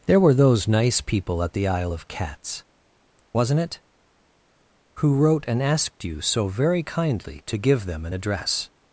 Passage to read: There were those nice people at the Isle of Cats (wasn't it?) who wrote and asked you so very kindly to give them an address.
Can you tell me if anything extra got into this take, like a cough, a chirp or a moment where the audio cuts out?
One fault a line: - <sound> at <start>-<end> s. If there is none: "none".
none